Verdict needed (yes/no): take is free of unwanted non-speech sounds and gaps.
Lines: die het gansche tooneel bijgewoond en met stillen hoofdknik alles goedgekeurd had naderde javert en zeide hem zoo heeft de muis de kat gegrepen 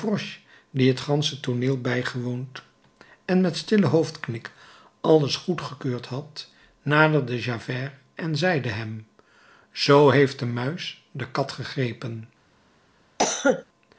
no